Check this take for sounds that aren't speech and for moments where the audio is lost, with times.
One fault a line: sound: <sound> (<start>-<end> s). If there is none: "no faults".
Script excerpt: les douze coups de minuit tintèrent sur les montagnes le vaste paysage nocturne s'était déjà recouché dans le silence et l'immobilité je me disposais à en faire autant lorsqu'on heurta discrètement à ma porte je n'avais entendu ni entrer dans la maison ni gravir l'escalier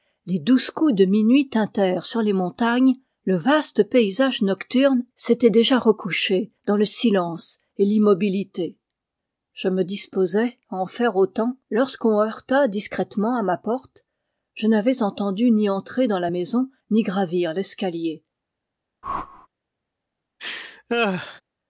sound: whoosh (19.0-19.5 s)
sound: laugh (20.4-21.4 s)